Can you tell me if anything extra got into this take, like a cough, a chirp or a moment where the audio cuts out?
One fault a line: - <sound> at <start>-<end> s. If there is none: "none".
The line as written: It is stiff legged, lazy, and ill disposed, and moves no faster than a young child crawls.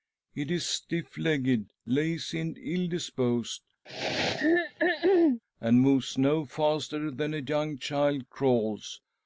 - throat clearing at 3.9-5.4 s